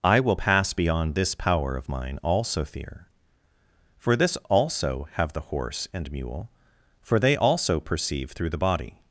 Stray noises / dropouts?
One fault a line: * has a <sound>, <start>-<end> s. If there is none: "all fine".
all fine